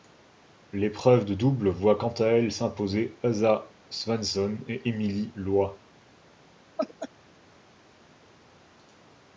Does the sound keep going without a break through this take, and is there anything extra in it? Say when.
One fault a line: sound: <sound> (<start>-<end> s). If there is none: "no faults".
sound: laugh (6.8-7.1 s)